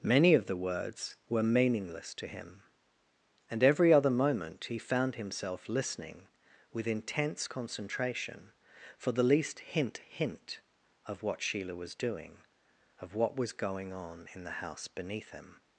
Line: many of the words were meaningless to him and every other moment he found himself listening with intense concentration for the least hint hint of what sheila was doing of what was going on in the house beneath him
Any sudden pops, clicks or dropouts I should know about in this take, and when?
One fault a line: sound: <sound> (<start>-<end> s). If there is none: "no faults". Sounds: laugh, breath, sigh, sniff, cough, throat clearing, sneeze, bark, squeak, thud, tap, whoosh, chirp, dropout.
no faults